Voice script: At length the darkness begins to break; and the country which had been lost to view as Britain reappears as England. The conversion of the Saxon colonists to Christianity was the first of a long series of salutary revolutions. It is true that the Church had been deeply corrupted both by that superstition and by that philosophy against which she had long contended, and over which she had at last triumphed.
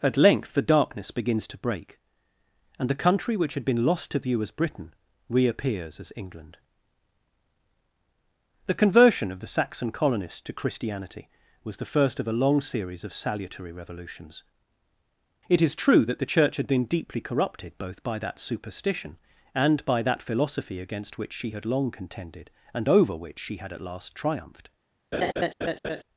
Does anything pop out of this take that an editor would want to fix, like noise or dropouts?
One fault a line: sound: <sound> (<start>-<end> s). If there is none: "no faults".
sound: laugh (25.1-26.0 s)